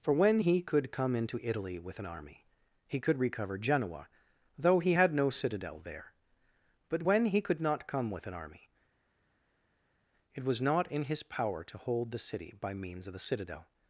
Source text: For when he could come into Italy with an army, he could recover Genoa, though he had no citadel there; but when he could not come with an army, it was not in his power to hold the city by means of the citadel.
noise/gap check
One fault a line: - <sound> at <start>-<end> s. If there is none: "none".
none